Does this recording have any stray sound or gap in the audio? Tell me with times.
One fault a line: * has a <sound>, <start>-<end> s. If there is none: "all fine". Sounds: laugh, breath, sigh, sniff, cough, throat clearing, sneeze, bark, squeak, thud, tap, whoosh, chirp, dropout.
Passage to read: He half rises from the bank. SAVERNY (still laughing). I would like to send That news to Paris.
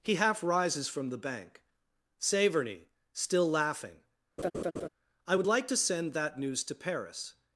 * has a laugh, 4.4-4.9 s